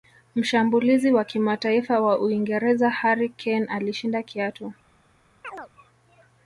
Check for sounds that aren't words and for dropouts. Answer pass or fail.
fail